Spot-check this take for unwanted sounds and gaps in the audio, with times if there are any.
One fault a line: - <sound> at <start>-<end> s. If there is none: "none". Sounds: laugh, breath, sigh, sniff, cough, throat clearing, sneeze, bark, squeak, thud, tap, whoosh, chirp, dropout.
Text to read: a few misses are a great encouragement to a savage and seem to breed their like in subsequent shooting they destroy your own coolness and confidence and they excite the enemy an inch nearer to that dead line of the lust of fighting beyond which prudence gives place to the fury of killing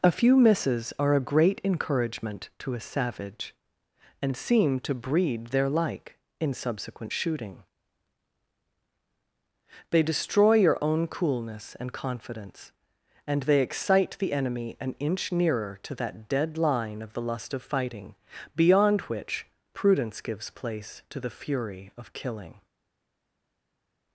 none